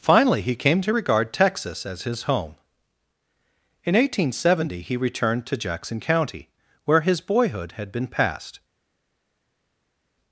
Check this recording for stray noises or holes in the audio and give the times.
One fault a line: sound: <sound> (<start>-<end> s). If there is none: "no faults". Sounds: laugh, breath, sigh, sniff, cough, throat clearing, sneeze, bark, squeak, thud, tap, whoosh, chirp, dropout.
no faults